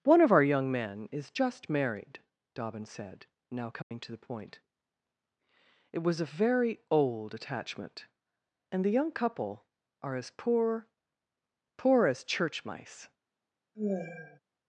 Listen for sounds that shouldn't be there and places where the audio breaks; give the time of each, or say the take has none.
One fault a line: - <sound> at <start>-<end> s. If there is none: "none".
- dropout at 3.8-3.9 s
- sigh at 13.7-14.4 s